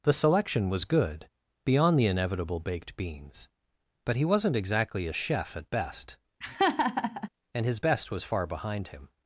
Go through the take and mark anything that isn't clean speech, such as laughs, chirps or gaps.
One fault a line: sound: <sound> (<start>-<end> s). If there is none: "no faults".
sound: laugh (6.4-7.3 s)